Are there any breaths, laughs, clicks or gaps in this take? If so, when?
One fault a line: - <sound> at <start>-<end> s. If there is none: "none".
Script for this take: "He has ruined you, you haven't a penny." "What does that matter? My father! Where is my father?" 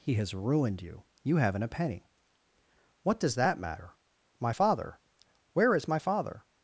none